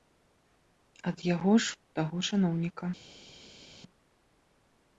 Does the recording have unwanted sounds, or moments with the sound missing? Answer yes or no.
no